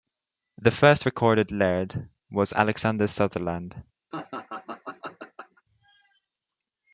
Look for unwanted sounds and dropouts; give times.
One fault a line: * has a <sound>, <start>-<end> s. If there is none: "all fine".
* has a laugh, 4.1-5.6 s